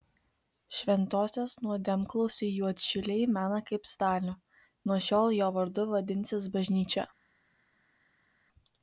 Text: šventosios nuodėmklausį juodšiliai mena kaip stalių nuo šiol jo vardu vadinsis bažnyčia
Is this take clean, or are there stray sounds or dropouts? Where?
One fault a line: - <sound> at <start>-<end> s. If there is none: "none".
none